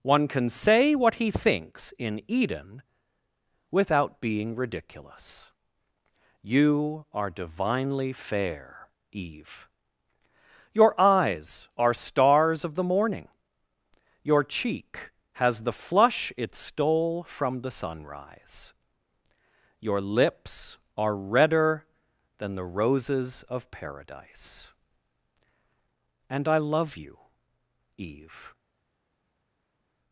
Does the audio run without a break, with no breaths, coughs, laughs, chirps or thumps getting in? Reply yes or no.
yes